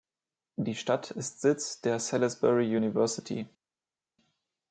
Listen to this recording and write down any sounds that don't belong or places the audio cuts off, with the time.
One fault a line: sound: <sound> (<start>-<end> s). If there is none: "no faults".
no faults